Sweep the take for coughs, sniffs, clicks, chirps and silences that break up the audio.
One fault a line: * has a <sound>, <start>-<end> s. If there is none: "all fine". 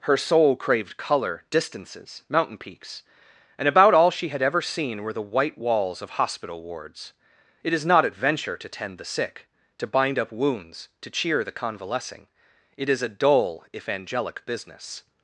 all fine